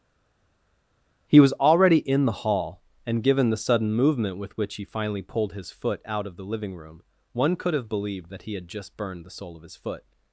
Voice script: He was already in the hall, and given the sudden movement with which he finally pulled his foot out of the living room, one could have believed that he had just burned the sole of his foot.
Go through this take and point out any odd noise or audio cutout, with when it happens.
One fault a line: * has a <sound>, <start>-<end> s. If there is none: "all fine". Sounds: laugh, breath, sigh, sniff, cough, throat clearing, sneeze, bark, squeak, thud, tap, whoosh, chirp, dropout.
all fine